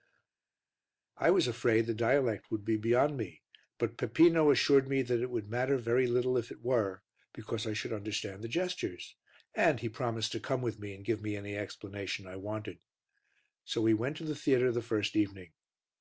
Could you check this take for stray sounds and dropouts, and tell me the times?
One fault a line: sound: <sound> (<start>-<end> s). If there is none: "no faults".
no faults